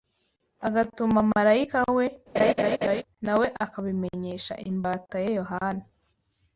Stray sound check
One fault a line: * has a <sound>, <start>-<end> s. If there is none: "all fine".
* has a laugh, 2.4-3.0 s